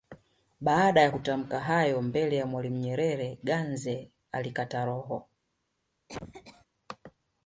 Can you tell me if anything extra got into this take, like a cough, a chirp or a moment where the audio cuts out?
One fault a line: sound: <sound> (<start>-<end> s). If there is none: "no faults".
sound: cough (6.1-6.7 s)